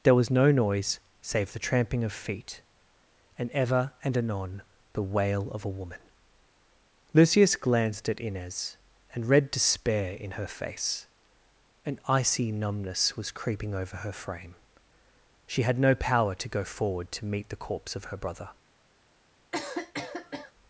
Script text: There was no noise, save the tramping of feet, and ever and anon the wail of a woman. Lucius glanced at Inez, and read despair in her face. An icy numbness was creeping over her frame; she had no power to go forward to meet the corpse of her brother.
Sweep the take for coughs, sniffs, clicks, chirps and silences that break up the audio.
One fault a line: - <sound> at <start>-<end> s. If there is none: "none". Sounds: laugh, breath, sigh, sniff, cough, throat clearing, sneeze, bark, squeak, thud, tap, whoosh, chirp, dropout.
- cough at 19.5-20.5 s